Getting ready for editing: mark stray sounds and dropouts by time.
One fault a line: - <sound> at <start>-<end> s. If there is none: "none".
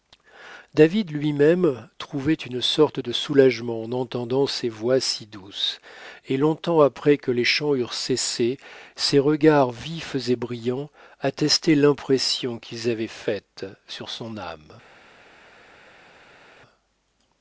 none